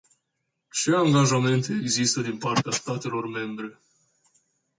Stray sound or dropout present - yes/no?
no